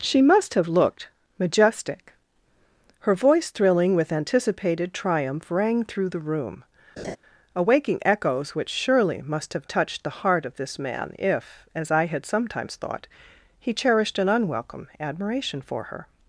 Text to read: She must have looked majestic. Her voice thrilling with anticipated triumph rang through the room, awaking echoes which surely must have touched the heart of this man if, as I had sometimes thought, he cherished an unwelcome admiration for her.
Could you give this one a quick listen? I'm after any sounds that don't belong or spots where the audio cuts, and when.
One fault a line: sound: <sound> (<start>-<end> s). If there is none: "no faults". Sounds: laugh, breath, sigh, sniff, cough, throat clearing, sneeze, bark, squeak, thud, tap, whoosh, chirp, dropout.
sound: laugh (7.0-7.2 s)